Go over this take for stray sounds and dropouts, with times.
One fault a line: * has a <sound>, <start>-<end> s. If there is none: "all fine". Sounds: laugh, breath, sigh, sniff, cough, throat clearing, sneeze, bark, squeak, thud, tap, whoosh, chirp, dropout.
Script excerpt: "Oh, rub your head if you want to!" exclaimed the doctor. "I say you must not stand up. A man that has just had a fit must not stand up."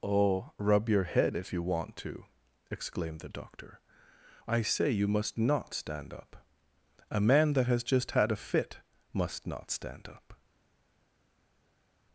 all fine